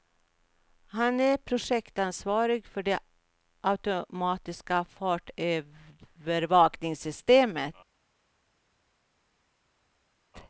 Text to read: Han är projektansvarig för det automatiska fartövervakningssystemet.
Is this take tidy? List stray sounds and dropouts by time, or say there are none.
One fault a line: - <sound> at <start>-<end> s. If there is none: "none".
none